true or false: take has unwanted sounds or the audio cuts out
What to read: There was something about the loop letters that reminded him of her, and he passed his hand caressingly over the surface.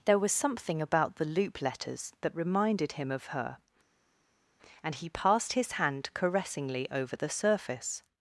false